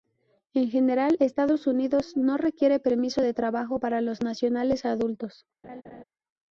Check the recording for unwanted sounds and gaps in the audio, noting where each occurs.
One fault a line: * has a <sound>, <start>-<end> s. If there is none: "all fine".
* has a laugh, 5.6-6.0 s